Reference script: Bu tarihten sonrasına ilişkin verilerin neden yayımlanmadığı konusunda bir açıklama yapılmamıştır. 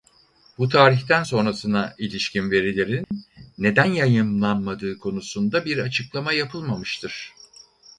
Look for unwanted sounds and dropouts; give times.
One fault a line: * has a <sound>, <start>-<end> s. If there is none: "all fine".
* has a dropout, 3.0-3.1 s